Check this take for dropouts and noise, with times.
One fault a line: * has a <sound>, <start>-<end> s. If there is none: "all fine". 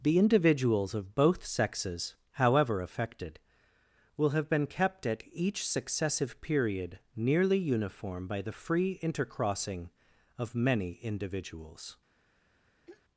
* has a throat clearing, 12.9-13.0 s